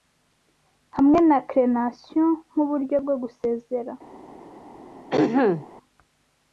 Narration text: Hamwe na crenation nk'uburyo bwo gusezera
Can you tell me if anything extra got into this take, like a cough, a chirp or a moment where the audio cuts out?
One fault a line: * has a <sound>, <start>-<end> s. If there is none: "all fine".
* has a throat clearing, 5.1-5.7 s